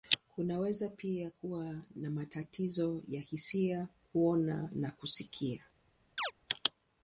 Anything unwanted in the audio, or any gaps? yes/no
yes